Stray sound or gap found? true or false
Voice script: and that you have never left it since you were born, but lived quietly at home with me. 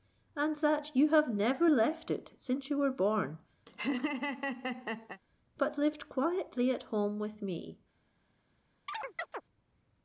true